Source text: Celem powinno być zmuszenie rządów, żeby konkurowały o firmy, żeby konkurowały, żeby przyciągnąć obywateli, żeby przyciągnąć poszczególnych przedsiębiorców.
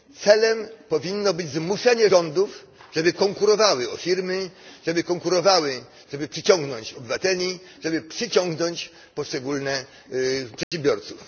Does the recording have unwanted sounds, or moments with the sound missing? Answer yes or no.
yes